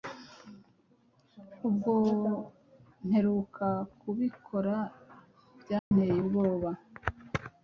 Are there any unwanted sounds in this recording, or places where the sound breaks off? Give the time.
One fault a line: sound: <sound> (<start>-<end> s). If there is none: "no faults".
sound: dropout (5.8-5.9 s)